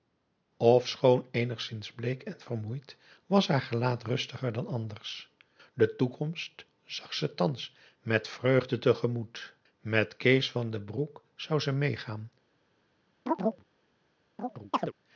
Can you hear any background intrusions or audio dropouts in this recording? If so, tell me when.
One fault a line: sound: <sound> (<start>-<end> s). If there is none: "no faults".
sound: chirp (13.3-13.7 s)
sound: chirp (14.4-14.9 s)